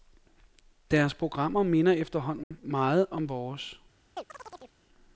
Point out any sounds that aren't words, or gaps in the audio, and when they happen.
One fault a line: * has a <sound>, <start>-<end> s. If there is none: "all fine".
* has a dropout, 2.4-2.5 s
* has a chirp, 4.2-4.8 s